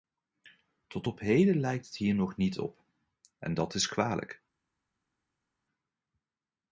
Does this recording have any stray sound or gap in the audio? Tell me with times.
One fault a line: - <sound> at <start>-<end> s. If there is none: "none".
none